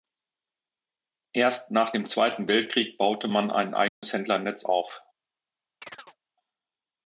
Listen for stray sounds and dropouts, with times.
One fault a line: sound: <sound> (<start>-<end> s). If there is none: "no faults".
sound: dropout (3.9-4.0 s)
sound: chirp (5.8-6.2 s)